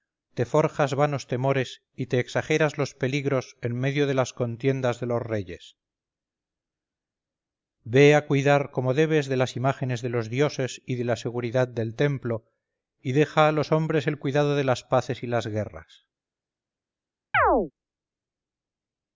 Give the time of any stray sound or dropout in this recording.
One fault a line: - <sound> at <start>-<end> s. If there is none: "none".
- chirp at 17.3-17.7 s